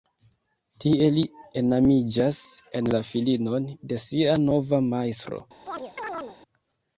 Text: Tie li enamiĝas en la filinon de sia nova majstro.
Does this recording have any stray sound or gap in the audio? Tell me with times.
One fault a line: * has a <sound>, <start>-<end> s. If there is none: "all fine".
* has a chirp, 5.7-6.4 s